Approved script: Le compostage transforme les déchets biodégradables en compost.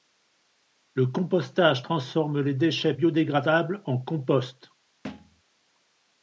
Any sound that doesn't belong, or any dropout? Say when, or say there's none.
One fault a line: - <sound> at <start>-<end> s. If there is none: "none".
- thud at 5.0-5.4 s